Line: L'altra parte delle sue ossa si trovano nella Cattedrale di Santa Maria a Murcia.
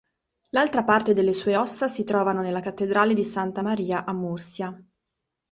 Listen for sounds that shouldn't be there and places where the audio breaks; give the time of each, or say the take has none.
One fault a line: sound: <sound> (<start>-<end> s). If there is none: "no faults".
no faults